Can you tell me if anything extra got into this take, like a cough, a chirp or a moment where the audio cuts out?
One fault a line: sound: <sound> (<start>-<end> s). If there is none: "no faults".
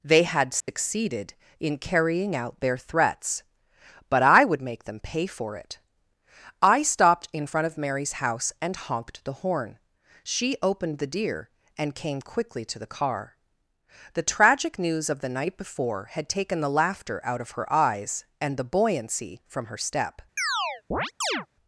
sound: dropout (0.6-0.7 s)
sound: chirp (20.4-21.5 s)